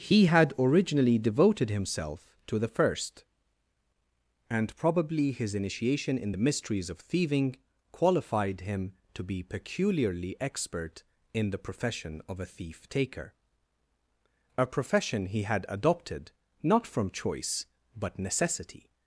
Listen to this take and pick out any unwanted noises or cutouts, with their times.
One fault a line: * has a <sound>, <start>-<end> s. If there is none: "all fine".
all fine